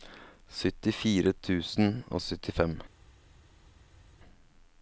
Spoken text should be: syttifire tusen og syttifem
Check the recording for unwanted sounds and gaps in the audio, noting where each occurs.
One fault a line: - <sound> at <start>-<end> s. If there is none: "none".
none